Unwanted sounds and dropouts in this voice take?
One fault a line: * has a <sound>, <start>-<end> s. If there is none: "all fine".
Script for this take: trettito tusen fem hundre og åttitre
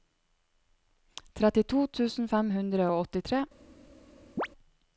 * has a chirp, 4.4-4.5 s